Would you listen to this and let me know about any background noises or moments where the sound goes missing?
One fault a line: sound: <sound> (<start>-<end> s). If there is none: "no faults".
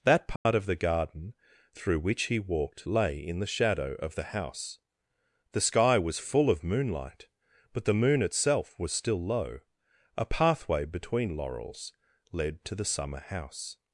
sound: dropout (0.4-0.5 s)